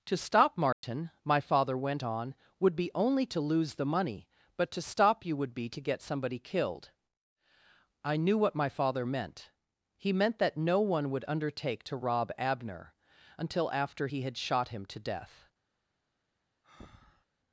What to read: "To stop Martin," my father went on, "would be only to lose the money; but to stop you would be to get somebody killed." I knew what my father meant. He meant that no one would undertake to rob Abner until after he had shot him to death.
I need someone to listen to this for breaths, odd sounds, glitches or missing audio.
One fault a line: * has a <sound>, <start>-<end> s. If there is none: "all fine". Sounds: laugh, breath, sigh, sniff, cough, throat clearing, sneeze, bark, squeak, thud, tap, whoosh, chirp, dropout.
* has a dropout, 0.7-0.8 s
* has a breath, 16.6-17.3 s